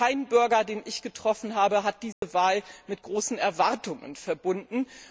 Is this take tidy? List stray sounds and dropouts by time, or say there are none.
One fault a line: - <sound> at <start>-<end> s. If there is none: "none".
- dropout at 2.1-2.2 s